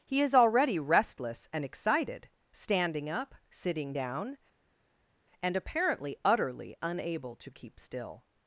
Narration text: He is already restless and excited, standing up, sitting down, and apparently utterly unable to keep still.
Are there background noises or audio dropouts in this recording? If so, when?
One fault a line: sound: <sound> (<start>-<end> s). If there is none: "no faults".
no faults